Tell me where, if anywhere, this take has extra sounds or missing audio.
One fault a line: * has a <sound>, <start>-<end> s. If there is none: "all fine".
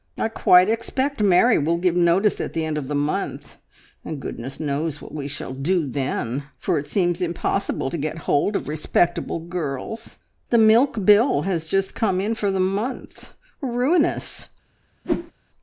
* has a whoosh, 15.0-15.3 s